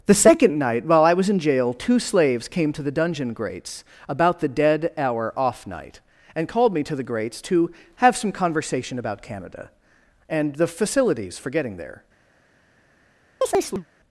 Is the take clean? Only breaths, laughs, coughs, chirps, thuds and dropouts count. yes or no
no